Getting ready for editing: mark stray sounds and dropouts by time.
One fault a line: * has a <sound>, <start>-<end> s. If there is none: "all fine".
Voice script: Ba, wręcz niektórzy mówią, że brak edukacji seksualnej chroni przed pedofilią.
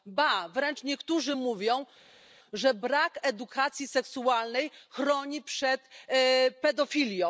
all fine